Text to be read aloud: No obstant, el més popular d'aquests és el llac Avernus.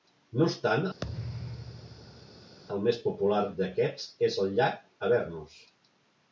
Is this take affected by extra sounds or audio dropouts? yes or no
yes